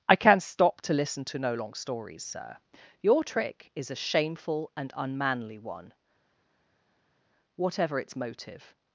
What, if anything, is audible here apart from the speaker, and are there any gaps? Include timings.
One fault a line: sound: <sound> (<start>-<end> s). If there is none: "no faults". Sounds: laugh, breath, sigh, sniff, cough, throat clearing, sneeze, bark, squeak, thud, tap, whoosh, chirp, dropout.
no faults